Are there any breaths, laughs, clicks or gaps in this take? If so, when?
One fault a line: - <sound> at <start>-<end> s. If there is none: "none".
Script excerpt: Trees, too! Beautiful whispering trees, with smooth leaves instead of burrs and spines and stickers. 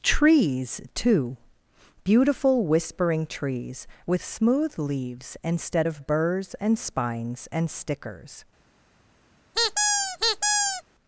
- squeak at 9.5-10.8 s